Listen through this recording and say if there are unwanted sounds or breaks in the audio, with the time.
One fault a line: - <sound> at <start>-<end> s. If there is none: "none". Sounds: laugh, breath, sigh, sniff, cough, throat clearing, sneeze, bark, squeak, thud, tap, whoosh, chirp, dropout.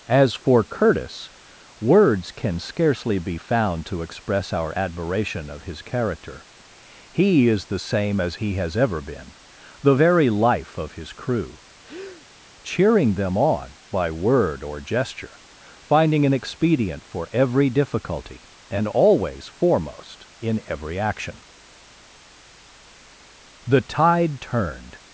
- breath at 11.8-12.3 s